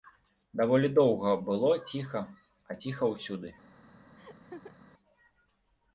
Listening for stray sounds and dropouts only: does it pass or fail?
fail